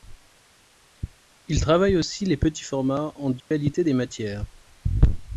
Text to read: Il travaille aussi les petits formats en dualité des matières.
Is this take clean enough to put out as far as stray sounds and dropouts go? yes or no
no